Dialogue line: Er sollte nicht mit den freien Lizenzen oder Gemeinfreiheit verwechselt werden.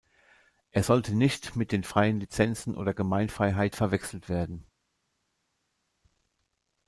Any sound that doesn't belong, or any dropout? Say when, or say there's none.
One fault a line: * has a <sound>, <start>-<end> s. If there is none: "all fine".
all fine